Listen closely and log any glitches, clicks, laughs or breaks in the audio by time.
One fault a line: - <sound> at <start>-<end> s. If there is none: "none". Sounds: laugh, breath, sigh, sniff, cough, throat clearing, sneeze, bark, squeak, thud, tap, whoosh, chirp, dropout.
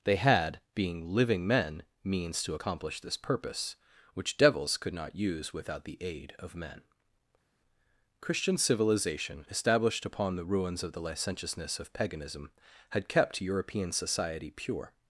none